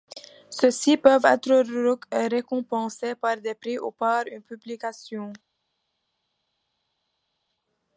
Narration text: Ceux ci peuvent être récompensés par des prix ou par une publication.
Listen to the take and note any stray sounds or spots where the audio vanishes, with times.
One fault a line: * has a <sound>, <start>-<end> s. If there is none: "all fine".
all fine